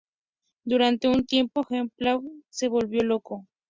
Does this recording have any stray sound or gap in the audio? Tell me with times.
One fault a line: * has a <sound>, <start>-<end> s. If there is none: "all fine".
all fine